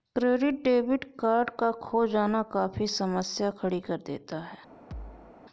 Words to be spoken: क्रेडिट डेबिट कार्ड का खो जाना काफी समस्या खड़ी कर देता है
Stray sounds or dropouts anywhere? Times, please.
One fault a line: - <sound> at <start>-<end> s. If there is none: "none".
- thud at 4.9-5.3 s